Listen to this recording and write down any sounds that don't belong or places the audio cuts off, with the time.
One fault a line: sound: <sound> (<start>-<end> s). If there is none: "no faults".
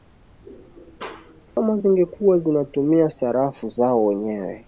sound: dropout (1.5-1.6 s)